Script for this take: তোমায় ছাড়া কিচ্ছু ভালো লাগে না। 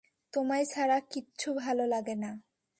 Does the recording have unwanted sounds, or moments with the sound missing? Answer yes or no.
no